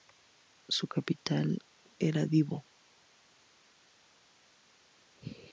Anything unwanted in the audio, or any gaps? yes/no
no